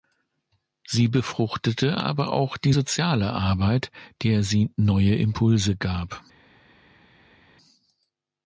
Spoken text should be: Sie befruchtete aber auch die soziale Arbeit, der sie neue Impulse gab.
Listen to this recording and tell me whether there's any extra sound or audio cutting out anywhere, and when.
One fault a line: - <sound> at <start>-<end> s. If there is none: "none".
none